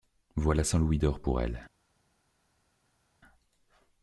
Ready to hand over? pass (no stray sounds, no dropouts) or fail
pass